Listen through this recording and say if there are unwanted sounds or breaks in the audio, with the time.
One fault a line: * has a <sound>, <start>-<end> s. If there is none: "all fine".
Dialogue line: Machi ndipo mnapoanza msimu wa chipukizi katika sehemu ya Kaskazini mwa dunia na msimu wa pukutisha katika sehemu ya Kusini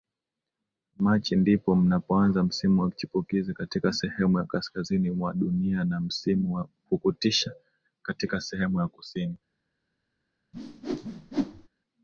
* has a whoosh, 10.5-11.7 s